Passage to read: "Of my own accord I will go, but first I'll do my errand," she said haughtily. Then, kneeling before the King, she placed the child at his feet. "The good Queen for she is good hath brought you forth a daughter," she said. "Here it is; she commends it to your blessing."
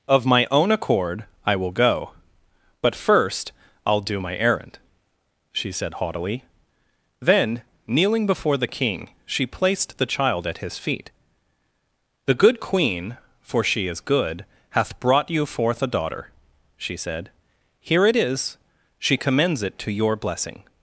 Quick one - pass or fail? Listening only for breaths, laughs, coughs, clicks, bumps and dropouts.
pass